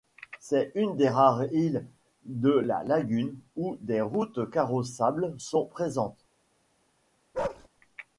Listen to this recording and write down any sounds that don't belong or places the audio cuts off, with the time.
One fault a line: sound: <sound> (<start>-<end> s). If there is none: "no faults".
sound: bark (7.3-7.7 s)